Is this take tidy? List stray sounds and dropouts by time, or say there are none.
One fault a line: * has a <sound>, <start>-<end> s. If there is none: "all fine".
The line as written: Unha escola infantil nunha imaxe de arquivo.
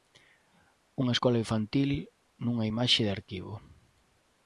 all fine